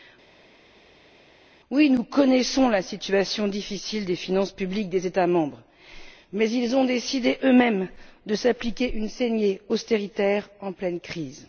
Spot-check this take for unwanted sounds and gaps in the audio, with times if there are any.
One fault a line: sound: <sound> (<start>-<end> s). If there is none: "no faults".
no faults